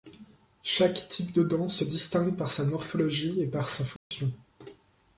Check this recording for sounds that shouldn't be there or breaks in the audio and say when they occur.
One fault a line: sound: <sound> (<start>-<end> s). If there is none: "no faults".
sound: dropout (4.0-4.1 s)